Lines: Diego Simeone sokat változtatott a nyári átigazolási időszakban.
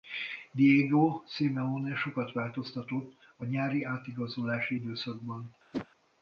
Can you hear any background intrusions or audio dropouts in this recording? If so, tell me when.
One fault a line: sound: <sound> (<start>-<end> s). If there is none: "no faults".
sound: whoosh (5.7-5.9 s)